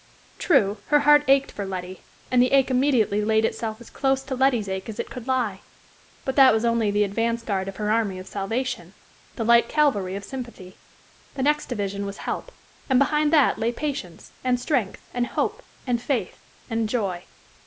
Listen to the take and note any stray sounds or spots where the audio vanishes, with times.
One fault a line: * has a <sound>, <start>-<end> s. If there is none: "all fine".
all fine